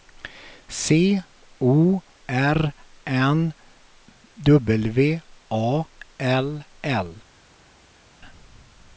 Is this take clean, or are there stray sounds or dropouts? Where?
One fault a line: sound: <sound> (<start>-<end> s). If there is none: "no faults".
no faults